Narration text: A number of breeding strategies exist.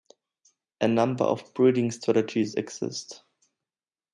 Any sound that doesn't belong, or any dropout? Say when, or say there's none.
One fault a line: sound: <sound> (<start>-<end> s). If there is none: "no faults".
no faults